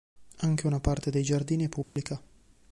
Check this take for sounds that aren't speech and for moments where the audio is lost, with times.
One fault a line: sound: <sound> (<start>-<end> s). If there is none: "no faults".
sound: dropout (1.8-2.0 s)